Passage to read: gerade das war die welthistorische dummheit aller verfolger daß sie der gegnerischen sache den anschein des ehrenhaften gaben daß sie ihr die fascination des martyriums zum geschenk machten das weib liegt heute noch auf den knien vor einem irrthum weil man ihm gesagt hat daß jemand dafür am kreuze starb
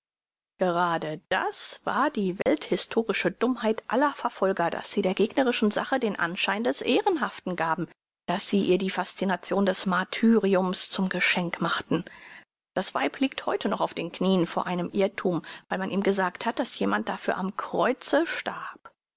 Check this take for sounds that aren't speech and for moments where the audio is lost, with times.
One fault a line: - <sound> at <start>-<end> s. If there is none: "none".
- dropout at 2.4-2.5 s